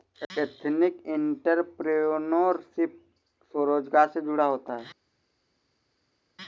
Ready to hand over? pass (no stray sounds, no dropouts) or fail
pass